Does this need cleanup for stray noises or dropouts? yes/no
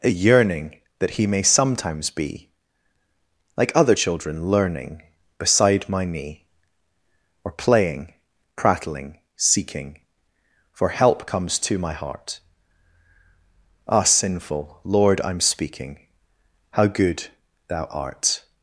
no